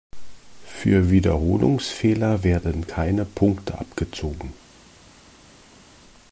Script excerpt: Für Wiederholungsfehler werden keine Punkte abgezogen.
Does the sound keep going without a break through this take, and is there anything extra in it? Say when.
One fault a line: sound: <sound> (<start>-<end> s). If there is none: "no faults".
no faults